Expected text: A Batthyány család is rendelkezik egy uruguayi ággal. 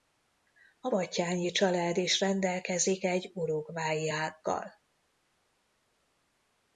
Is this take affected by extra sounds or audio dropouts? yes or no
no